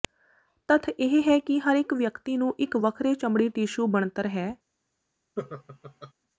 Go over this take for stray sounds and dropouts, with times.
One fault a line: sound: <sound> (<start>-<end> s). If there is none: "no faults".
sound: laugh (5.4-6.1 s)